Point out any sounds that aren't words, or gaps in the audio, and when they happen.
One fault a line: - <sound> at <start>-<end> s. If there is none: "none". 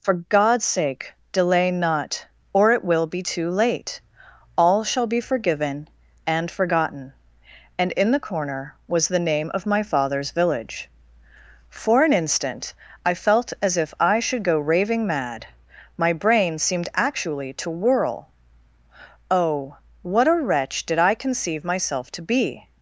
none